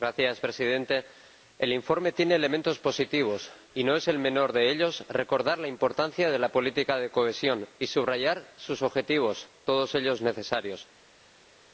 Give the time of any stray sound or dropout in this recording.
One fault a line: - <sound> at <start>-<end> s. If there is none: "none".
none